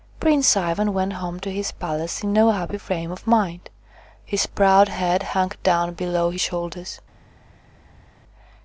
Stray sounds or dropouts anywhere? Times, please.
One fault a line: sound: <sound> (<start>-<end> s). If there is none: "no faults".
no faults